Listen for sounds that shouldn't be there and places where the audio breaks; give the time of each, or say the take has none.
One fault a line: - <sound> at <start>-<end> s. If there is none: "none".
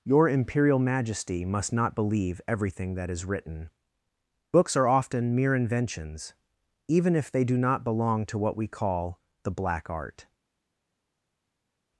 none